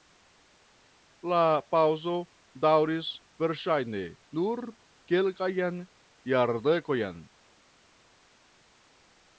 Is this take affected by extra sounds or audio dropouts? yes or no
no